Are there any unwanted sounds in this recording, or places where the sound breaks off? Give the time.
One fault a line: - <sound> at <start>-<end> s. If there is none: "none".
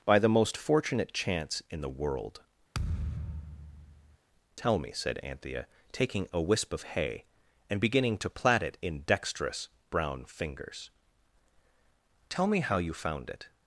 - thud at 2.7-4.2 s